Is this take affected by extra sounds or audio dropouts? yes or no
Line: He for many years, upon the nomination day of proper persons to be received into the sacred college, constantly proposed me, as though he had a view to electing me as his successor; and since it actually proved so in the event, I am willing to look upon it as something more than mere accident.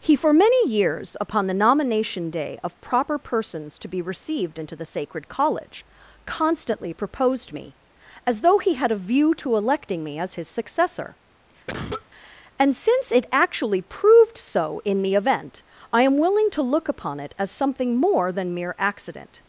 yes